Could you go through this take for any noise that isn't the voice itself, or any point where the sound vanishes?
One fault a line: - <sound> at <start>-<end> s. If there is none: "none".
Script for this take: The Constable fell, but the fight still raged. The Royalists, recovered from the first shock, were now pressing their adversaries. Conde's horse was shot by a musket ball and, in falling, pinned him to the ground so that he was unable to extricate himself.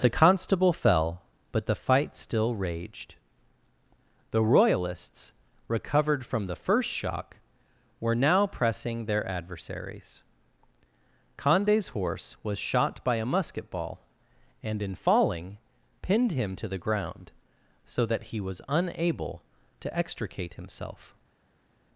none